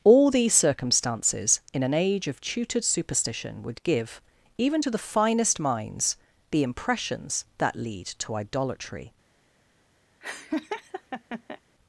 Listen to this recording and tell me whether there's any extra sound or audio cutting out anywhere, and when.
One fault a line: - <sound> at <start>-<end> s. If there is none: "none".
- laugh at 10.2-11.6 s